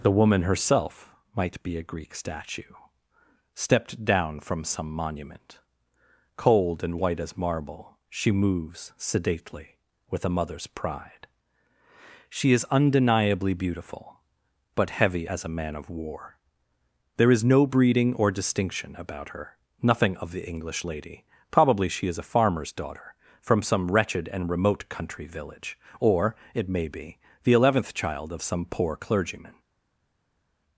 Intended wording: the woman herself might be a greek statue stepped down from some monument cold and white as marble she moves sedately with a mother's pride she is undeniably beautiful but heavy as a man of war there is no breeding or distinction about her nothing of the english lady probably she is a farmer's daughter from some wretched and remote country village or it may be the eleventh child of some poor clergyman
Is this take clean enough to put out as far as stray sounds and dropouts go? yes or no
yes